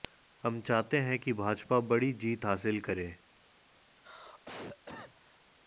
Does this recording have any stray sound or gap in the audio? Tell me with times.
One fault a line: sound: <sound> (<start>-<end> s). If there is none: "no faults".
sound: cough (3.9-5.4 s)